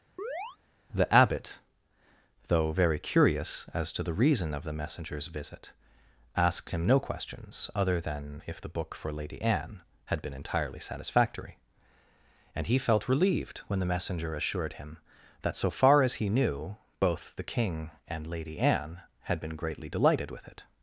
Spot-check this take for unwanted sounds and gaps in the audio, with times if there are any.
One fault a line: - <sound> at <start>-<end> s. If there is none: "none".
- chirp at 0.2-0.6 s